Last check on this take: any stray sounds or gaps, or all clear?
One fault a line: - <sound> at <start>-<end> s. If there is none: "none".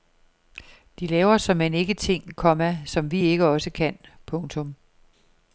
none